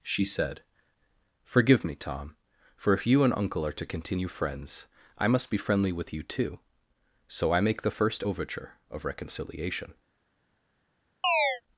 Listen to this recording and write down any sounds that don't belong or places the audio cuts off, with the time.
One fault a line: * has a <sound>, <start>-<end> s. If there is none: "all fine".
* has a chirp, 11.2-11.6 s